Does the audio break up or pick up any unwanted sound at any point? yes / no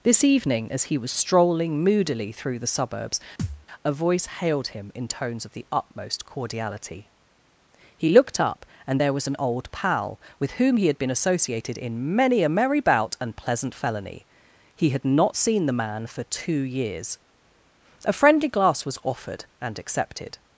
yes